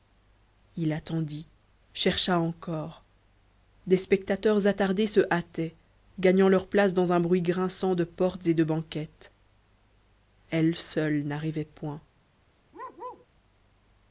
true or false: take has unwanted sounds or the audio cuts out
true